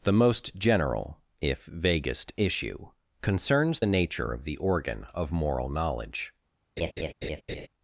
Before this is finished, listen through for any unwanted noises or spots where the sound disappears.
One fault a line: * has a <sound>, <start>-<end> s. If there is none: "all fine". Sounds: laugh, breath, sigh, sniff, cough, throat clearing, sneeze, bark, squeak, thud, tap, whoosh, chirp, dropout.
* has a laugh, 6.8-7.7 s